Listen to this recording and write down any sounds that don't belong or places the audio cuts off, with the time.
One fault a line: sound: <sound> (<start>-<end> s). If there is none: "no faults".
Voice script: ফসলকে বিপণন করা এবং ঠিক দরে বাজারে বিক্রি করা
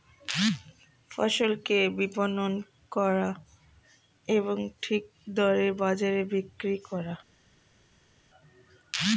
no faults